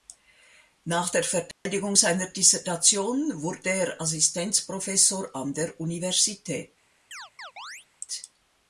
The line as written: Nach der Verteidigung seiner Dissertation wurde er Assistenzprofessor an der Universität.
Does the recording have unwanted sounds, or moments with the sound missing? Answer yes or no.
yes